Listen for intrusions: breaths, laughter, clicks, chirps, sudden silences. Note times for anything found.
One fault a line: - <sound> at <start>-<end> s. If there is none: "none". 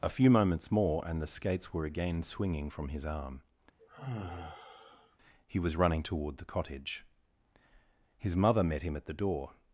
- sigh at 3.8-5.2 s